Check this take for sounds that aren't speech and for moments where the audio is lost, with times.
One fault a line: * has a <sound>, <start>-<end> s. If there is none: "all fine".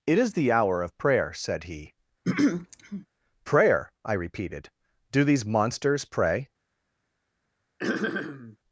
* has a throat clearing, 2.2-3.1 s
* has a throat clearing, 7.8-8.6 s